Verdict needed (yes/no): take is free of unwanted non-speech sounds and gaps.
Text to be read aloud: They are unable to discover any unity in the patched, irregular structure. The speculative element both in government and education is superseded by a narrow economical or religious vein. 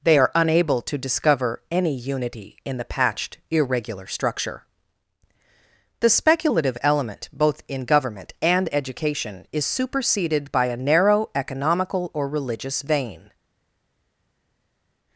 yes